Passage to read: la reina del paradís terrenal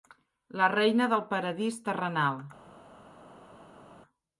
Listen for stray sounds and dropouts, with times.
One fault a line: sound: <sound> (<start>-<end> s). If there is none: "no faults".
no faults